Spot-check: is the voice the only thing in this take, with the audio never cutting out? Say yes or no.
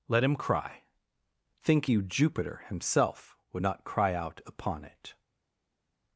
yes